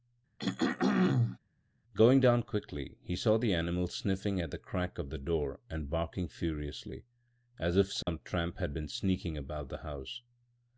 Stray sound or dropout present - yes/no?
yes